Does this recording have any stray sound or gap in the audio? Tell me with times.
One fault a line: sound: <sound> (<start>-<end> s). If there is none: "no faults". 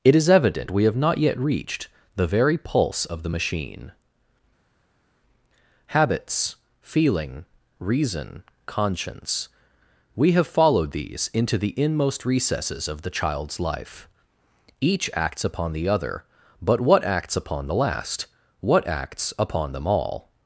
no faults